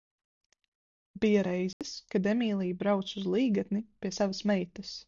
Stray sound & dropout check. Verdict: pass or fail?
fail